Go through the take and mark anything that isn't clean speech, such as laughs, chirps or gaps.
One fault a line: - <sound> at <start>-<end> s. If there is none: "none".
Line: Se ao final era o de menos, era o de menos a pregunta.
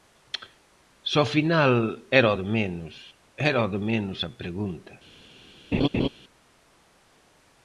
- laugh at 5.7-6.1 s